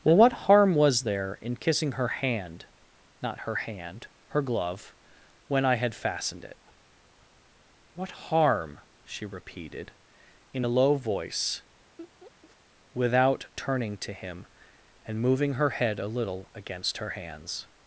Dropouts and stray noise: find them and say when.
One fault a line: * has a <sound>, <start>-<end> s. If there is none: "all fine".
* has a laugh, 12.0-12.6 s